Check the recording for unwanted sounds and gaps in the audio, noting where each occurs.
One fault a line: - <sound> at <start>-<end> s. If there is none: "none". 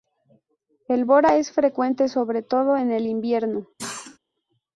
- cough at 3.8-4.2 s